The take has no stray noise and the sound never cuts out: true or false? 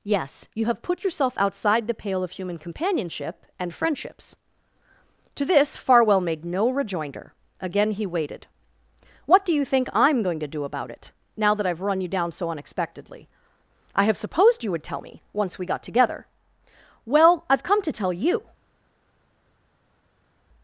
true